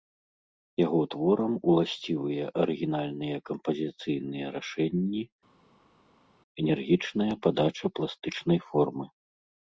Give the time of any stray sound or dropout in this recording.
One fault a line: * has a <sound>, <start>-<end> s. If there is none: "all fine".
all fine